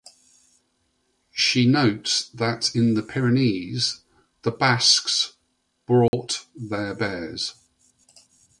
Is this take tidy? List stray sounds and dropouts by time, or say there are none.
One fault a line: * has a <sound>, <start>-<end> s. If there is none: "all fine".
* has a dropout, 6.1-6.1 s